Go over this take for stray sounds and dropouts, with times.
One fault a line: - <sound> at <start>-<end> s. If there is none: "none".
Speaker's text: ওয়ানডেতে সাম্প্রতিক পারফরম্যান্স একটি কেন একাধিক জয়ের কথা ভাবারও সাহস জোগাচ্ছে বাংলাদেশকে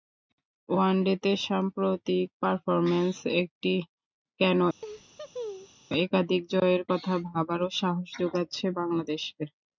- laugh at 4.8-5.8 s